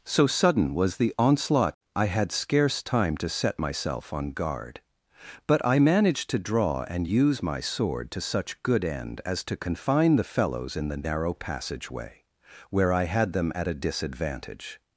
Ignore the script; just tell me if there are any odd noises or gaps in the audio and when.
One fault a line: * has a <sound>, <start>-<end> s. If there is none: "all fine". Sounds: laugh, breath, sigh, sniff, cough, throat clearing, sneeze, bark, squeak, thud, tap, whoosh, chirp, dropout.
all fine